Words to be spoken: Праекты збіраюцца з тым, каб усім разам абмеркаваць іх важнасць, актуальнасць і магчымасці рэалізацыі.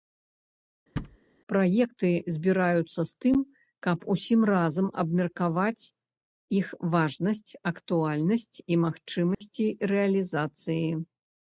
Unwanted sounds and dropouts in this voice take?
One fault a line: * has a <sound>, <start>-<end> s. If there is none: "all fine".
* has a thud, 1.0-1.2 s
* has a dropout, 9.3-9.4 s